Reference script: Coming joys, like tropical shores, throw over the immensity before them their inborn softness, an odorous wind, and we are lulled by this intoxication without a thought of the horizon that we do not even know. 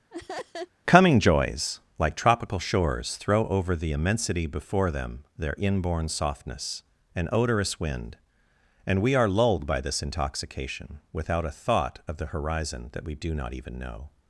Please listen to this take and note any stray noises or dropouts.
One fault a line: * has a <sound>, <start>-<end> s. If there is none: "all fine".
* has a laugh, 0.1-0.7 s